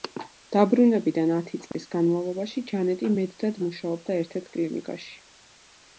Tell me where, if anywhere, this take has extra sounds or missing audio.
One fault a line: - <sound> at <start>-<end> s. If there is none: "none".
- dropout at 1.7-1.7 s